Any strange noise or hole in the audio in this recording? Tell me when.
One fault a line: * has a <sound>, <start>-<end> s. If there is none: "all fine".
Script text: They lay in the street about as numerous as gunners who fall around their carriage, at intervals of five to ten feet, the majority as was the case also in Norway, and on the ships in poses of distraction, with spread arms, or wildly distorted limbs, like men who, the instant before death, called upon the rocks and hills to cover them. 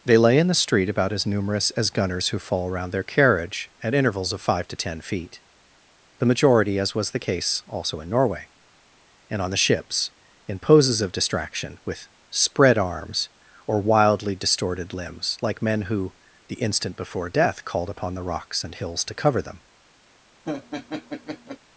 * has a laugh, 20.5-21.6 s